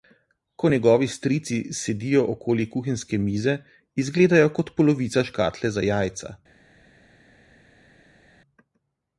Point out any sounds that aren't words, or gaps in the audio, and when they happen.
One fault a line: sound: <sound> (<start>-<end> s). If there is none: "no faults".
no faults